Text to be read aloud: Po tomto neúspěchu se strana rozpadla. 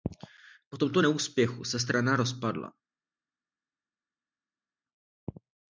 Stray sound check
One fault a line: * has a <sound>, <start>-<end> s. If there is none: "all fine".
all fine